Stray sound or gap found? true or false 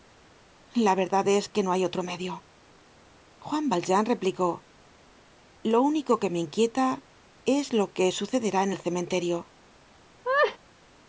true